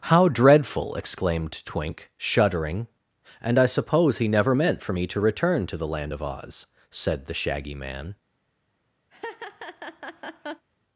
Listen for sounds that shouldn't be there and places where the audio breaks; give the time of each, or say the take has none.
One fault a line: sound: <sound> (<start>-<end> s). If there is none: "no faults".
sound: laugh (9.1-10.7 s)